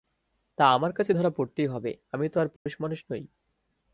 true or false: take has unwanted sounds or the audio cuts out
true